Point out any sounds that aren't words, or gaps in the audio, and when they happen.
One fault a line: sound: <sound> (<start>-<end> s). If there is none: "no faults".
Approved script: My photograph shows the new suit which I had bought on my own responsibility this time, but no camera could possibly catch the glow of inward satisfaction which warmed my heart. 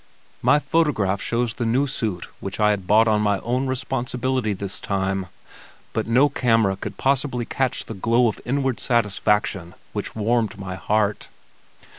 no faults